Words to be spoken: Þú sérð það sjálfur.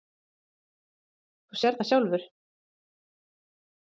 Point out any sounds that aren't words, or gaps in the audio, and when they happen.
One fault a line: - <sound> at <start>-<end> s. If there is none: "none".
none